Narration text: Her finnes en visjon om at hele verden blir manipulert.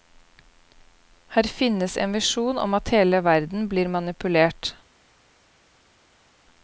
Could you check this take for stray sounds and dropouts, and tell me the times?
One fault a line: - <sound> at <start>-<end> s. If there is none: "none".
none